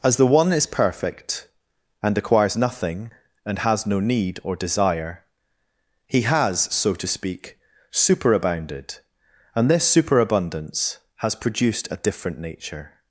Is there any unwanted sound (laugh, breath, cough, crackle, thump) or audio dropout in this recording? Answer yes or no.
no